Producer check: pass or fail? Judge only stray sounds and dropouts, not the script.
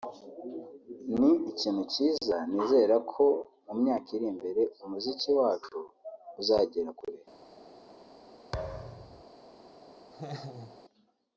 fail